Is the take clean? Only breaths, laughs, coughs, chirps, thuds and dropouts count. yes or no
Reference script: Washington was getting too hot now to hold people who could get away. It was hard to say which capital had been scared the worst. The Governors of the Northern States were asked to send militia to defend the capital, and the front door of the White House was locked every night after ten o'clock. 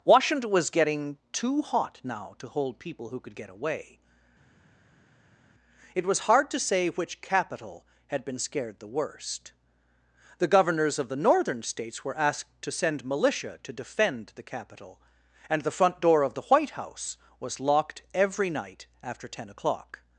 yes